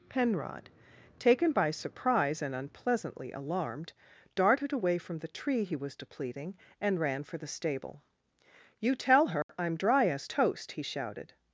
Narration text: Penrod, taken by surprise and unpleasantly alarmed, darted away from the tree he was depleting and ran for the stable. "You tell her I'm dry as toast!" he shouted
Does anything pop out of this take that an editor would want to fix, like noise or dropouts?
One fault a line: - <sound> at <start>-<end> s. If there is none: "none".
- dropout at 9.4-9.5 s